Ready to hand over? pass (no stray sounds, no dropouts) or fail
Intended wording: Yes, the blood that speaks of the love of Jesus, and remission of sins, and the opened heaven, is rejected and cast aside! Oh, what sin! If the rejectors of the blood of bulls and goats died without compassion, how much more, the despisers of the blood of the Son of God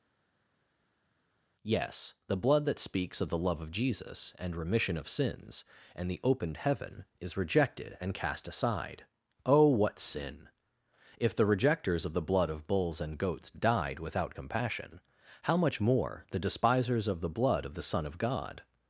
pass